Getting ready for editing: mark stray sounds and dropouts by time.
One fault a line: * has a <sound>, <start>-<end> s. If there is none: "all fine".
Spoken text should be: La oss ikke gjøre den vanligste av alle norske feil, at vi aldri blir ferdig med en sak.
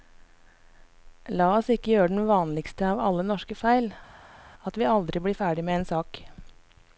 all fine